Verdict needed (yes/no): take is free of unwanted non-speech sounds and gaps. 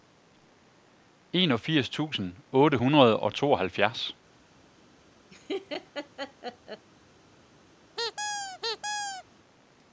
no